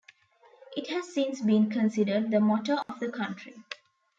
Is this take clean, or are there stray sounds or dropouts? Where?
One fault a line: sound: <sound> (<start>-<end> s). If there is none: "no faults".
sound: dropout (2.8-2.9 s)